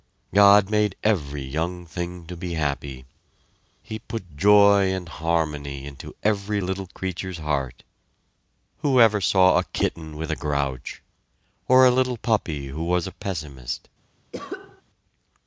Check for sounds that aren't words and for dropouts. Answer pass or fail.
fail